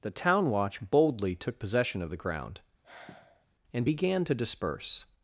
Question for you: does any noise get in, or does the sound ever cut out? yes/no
yes